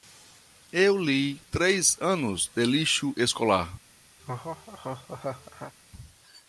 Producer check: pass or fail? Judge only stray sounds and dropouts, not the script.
fail